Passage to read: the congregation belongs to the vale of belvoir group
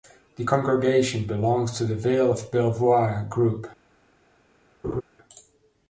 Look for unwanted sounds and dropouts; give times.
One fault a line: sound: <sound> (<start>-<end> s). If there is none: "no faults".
sound: laugh (4.8-5.0 s)